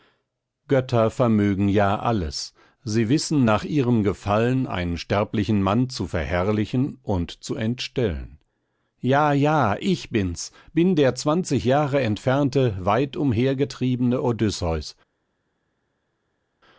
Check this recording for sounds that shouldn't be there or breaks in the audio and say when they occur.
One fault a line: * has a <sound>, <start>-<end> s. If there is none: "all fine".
all fine